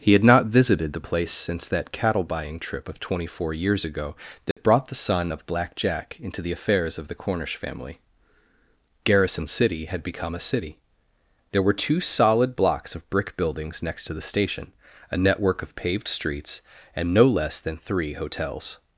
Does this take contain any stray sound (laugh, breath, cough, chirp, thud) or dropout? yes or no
yes